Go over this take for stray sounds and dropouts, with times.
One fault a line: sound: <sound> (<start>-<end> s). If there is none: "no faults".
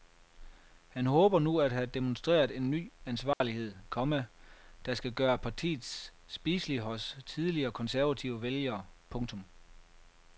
sound: dropout (3.3-3.4 s)